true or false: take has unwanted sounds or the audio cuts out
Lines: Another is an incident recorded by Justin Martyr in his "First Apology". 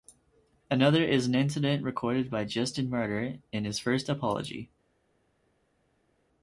false